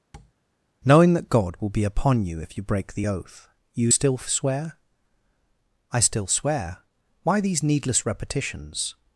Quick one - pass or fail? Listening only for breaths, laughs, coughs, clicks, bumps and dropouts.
fail